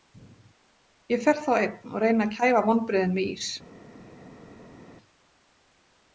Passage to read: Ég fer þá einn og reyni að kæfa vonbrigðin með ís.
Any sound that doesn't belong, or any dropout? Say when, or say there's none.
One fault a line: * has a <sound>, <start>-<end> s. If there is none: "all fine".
all fine